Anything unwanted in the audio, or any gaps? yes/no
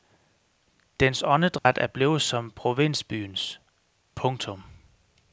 yes